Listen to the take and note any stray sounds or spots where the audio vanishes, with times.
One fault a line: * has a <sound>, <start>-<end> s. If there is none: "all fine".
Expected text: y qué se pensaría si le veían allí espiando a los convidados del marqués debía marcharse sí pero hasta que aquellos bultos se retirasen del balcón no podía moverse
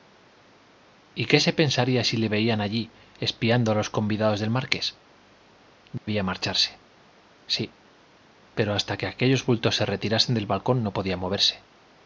* has a dropout, 6.0-6.1 s